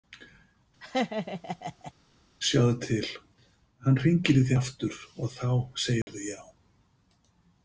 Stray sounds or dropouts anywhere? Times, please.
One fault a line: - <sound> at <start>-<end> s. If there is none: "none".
- laugh at 0.8-1.9 s
- dropout at 6.0-6.1 s